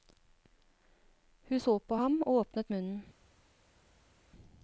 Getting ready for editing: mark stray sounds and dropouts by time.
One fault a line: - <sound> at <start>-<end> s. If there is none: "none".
none